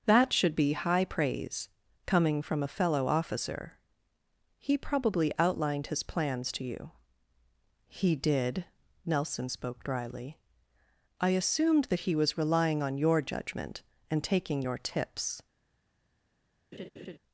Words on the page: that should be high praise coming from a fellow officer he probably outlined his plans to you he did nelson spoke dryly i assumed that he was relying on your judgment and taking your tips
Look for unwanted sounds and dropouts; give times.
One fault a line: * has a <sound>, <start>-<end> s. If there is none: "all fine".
* has a laugh, 16.7-17.2 s